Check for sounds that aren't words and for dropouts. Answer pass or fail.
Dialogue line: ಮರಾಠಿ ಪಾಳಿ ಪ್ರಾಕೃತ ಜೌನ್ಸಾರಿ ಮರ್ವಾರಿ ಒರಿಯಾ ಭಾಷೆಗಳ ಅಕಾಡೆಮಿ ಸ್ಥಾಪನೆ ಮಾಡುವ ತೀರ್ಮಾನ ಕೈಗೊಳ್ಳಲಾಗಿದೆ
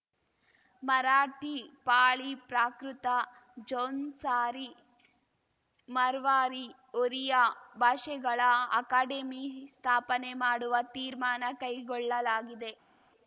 pass